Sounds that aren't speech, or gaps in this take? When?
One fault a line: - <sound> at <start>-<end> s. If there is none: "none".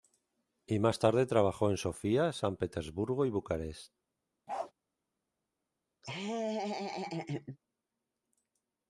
- bark at 4.5-4.7 s
- laugh at 6.0-7.6 s